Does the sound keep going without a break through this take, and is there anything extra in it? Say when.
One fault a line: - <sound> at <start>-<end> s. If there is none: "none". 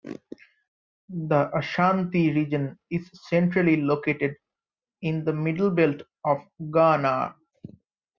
none